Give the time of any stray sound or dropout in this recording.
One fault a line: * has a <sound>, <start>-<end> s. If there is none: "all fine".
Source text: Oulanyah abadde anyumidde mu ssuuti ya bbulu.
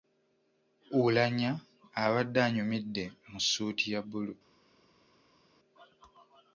all fine